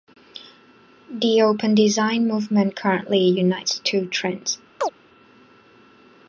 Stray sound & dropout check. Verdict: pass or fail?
fail